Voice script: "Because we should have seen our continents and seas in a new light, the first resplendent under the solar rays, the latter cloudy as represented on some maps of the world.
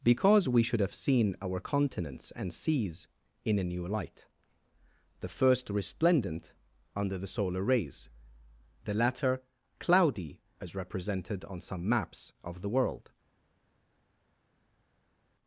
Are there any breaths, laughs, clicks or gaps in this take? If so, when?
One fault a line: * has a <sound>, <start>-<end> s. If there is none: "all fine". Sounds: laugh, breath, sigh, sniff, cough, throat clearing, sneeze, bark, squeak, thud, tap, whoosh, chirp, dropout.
all fine